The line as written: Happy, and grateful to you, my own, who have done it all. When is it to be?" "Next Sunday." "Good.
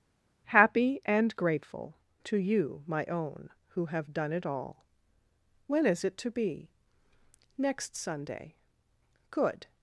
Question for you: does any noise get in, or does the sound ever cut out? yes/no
no